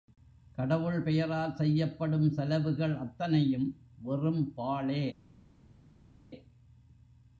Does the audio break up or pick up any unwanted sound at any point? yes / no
no